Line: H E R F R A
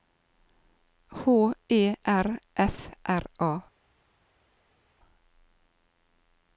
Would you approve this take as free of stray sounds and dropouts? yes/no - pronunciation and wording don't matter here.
yes